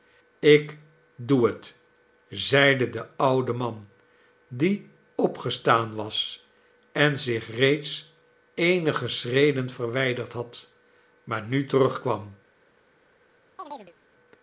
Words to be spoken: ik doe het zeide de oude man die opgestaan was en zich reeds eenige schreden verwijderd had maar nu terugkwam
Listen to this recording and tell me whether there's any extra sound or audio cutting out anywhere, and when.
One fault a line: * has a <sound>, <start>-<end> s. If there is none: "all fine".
* has a chirp, 13.6-13.9 s